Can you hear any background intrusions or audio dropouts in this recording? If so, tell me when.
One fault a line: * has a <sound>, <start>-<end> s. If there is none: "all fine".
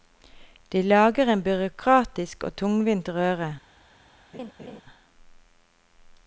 * has a laugh, 4.3-4.8 s